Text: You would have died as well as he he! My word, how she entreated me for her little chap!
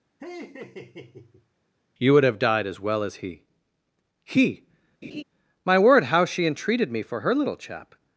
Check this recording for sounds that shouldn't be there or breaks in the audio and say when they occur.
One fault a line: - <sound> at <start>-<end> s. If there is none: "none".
- laugh at 0.2-1.5 s
- laugh at 5.0-5.2 s